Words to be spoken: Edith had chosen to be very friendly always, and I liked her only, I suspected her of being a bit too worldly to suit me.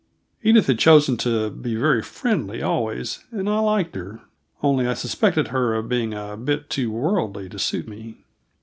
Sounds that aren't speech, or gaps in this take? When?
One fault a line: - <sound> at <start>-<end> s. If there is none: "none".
none